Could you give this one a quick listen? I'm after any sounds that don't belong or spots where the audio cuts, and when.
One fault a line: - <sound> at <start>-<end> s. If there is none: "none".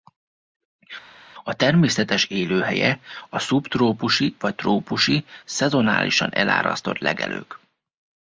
none